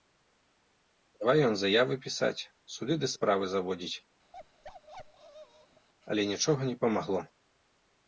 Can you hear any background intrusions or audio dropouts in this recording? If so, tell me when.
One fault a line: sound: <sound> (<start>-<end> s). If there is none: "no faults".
sound: bark (4.3-5.9 s)